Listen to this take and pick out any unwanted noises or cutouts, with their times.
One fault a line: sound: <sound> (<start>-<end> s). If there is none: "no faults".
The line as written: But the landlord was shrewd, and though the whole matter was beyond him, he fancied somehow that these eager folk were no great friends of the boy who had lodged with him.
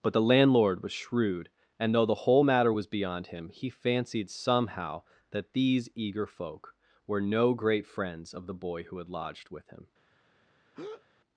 sound: breath (10.7-11.1 s)